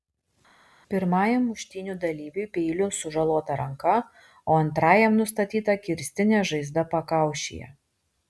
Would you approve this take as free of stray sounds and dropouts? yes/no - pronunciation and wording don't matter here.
yes